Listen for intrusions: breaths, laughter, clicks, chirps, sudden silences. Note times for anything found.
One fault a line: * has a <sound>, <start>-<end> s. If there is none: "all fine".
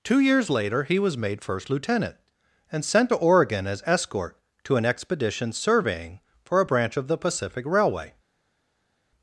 all fine